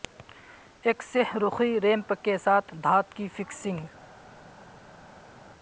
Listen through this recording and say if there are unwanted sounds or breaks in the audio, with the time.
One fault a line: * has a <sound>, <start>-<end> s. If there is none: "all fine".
all fine